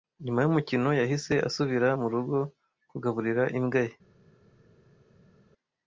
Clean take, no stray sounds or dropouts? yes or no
yes